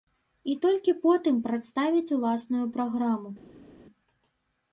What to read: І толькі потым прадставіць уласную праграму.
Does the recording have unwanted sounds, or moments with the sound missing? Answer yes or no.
no